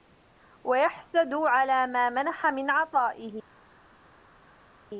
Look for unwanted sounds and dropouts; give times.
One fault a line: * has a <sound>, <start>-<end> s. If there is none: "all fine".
all fine